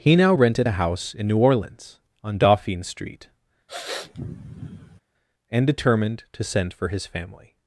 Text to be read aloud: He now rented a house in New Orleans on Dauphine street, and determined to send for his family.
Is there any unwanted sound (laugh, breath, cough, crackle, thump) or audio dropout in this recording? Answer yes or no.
yes